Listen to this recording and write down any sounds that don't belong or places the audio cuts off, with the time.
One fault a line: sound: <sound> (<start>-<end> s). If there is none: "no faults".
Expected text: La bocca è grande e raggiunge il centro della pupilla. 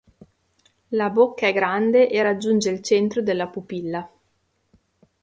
no faults